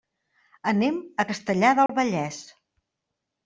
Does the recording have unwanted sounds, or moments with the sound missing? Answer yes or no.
yes